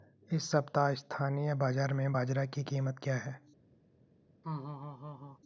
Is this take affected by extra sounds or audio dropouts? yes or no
yes